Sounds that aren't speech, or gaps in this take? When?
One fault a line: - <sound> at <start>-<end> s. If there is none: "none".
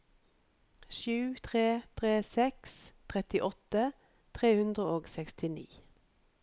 none